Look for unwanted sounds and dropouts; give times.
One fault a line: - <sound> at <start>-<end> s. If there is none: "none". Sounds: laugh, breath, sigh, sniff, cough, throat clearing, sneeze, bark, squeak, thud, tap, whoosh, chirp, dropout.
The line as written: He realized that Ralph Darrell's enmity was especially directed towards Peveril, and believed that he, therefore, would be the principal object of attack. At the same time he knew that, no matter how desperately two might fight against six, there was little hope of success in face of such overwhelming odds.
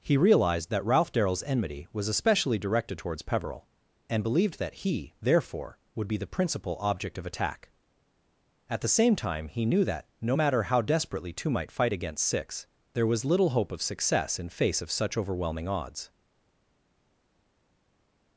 none